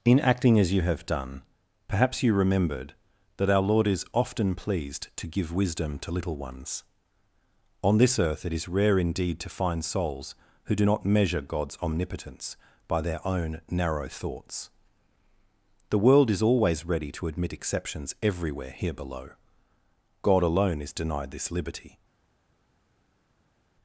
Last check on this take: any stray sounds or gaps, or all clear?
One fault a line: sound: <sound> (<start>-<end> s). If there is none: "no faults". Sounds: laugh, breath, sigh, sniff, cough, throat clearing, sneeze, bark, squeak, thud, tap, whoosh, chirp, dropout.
no faults